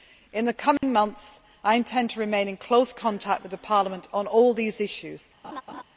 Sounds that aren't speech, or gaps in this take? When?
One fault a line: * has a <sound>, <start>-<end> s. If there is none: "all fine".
* has a dropout, 0.8-0.8 s
* has a laugh, 5.4-5.8 s